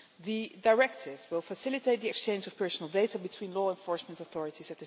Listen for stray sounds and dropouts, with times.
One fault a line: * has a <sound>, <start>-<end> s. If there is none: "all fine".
all fine